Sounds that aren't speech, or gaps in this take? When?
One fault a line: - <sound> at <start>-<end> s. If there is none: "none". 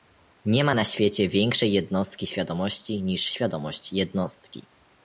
none